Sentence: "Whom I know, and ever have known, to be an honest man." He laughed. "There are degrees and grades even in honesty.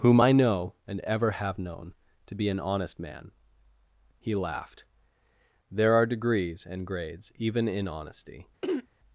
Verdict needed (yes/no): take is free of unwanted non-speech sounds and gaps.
no